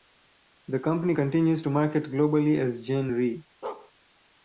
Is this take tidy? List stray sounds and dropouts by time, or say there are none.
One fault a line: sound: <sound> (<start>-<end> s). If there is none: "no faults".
sound: bark (3.6-3.9 s)